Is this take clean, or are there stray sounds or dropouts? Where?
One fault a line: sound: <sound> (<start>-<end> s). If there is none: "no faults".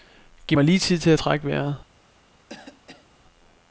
sound: cough (2.5-3.1 s)